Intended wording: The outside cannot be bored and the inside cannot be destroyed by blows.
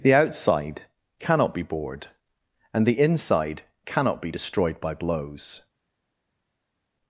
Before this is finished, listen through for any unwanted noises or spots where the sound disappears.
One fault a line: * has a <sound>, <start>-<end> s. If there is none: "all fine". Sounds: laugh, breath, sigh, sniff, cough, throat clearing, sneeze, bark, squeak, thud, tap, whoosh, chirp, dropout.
all fine